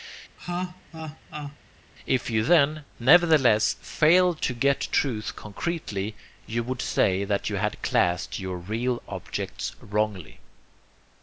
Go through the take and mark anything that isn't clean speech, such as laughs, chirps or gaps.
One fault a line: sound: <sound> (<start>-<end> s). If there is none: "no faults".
sound: laugh (0.4-1.6 s)